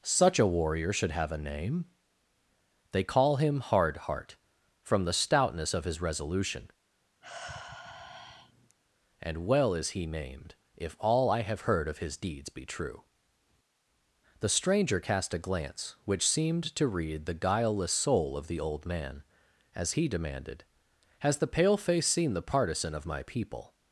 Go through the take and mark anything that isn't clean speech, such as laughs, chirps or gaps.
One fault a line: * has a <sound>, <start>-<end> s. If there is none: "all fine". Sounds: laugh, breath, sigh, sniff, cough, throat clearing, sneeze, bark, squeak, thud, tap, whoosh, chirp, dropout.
* has a sigh, 7.2-8.8 s